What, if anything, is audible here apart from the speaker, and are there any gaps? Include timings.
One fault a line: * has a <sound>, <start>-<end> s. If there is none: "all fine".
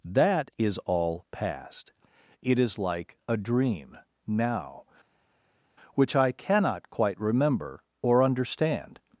all fine